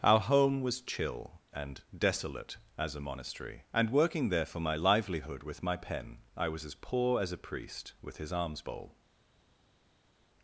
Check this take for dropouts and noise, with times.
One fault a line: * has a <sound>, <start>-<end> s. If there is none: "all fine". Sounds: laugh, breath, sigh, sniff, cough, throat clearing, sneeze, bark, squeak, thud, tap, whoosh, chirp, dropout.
all fine